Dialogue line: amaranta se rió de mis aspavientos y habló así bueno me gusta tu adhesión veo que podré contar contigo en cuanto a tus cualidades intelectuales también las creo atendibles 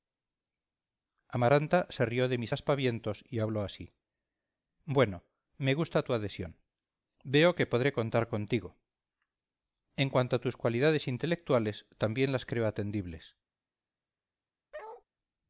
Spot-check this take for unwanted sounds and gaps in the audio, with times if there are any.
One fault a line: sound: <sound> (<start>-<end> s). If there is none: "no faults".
sound: bark (14.7-15.0 s)